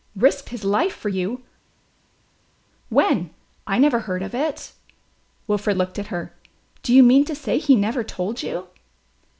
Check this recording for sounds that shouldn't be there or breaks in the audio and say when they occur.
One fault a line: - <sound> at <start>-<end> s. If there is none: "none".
none